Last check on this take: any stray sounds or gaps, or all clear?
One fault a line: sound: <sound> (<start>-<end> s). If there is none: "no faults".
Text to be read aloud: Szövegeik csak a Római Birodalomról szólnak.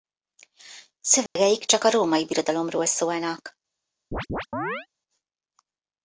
sound: dropout (1.3-1.4 s)
sound: chirp (4.1-4.9 s)